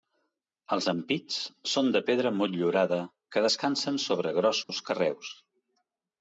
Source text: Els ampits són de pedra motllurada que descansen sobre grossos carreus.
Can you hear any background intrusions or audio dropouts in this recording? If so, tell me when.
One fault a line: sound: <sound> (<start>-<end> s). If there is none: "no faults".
sound: dropout (4.6-4.7 s)